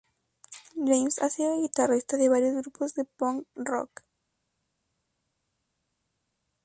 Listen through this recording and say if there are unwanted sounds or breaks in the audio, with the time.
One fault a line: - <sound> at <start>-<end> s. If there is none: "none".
none